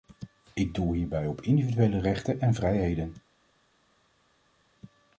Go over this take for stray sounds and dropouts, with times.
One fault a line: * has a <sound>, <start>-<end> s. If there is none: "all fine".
all fine